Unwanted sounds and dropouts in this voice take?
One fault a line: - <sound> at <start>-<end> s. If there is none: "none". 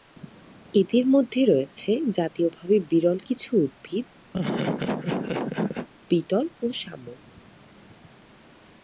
- laugh at 4.3-5.9 s